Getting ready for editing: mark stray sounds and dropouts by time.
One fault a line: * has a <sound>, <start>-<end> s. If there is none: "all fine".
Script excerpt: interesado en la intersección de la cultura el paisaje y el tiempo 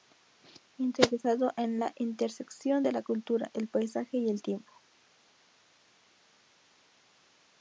all fine